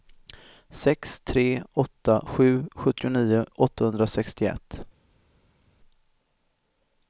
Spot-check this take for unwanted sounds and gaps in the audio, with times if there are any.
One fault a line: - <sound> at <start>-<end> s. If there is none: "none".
none